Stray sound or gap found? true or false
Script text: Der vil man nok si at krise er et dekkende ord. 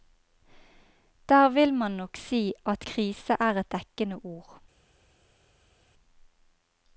false